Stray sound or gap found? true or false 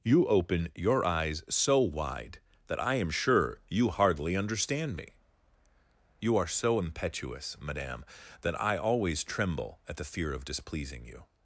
false